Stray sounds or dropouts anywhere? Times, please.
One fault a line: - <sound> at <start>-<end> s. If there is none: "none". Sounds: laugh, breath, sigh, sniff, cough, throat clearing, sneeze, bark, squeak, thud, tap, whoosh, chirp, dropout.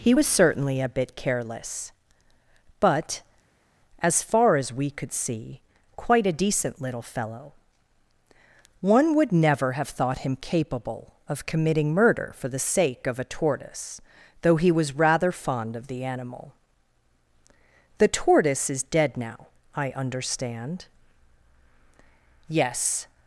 none